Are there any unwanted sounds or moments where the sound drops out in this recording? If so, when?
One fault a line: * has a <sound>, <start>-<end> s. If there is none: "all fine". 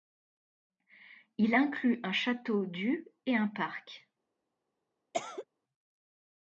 * has a cough, 5.1-5.5 s